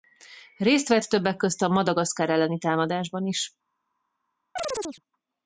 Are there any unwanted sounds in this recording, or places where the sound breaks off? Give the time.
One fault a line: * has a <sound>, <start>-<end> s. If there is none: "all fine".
* has a chirp, 4.6-5.0 s